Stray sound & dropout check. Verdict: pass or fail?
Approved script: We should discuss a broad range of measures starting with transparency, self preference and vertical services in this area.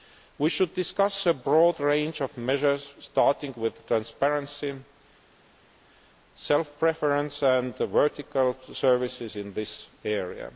pass